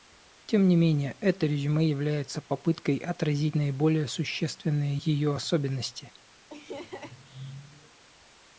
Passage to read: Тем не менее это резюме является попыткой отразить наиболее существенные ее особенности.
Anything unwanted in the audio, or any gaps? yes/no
yes